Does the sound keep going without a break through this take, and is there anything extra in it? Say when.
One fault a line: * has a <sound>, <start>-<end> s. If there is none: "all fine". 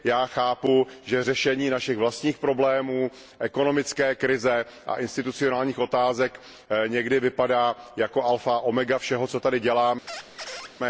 * has a squeak, 10.1-10.7 s